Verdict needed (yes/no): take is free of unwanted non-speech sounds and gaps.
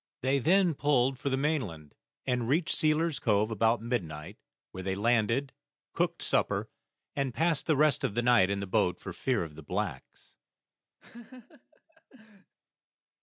no